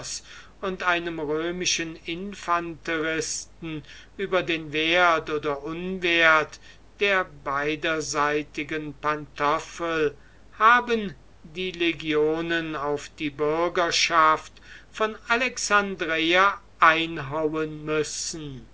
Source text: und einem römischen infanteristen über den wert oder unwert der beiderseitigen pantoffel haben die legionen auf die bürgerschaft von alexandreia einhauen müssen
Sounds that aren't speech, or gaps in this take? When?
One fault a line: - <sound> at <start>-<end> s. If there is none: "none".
none